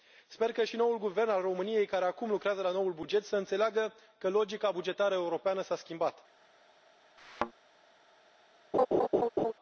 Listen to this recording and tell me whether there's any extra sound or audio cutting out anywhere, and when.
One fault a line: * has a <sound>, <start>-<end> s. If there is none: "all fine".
* has a thud, 7.2-7.5 s
* has a laugh, 8.7-9.5 s